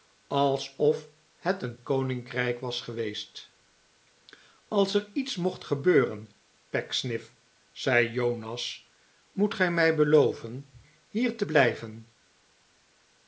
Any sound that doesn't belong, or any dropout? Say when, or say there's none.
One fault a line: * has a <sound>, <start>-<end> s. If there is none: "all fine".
all fine